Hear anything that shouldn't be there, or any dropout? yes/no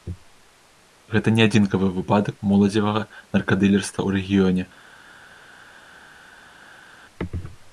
no